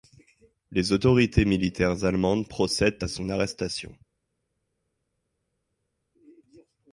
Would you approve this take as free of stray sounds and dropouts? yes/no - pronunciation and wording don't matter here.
yes